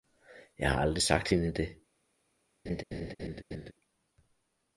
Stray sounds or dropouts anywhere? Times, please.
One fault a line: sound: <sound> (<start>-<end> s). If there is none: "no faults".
sound: laugh (2.7-3.7 s)